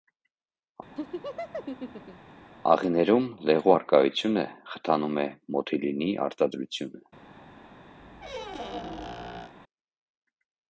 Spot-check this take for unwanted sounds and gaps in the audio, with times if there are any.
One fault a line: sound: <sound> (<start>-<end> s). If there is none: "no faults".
sound: laugh (1.0-2.3 s)
sound: squeak (8.0-9.5 s)